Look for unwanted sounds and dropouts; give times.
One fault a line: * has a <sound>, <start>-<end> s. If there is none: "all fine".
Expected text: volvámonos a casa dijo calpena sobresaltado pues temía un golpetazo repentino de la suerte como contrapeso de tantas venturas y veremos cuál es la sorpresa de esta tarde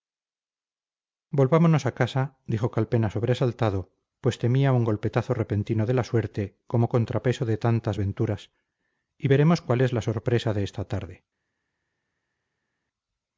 all fine